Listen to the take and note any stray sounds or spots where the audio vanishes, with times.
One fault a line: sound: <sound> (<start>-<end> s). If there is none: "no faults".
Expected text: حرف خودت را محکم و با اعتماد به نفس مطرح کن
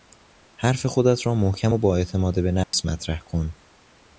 sound: dropout (2.6-2.7 s)